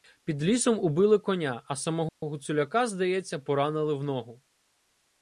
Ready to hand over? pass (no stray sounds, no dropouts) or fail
fail